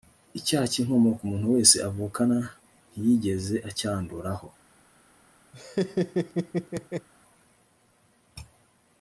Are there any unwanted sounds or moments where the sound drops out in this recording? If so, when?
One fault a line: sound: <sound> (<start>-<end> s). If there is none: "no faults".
sound: laugh (5.5-7.1 s)